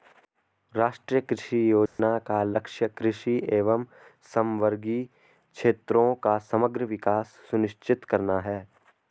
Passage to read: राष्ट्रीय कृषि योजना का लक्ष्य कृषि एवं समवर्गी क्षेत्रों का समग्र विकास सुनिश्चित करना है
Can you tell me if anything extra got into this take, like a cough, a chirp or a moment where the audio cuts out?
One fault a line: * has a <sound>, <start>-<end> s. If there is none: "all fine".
* has a dropout, 1.9-2.0 s